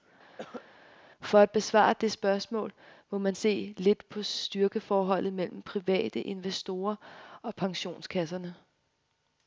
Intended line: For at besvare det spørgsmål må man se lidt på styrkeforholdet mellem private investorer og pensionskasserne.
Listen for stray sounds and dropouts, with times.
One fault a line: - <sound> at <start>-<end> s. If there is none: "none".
- cough at 0.4-0.7 s